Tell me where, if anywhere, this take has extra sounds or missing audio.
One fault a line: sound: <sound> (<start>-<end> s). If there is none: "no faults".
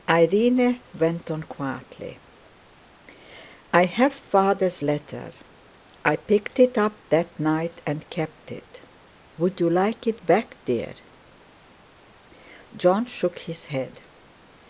no faults